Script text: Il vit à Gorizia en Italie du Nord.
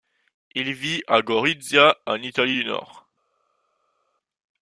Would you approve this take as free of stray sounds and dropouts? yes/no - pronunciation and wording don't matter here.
yes